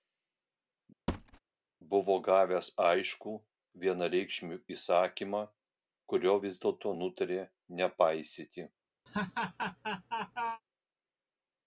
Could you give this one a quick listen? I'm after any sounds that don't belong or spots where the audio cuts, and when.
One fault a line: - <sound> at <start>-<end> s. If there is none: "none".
- thud at 1.1-1.4 s
- laugh at 9.1-10.6 s